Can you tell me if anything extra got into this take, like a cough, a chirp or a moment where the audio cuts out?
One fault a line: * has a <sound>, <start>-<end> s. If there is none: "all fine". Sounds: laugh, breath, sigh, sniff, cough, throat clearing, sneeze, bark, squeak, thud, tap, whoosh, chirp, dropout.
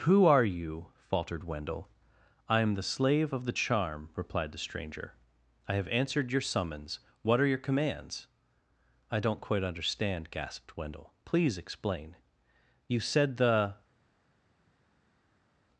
all fine